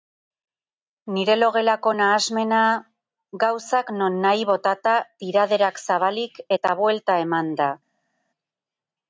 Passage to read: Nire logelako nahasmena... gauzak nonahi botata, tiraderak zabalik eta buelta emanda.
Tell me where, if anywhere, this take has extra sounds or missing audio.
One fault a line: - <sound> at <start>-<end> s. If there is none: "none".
none